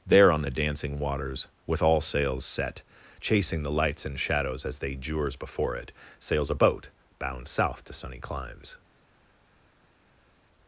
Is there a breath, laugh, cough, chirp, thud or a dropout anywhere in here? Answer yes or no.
no